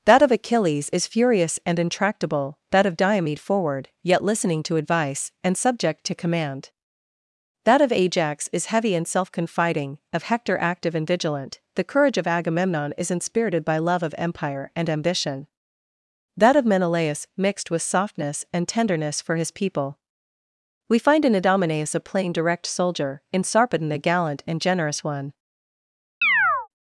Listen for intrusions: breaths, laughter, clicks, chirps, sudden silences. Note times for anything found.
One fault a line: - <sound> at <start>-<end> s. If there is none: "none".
- chirp at 26.2-26.7 s